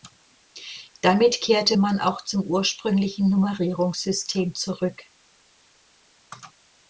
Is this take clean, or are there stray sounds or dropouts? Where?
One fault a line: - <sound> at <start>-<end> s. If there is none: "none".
none